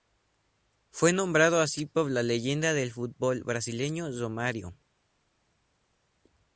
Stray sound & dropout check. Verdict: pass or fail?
pass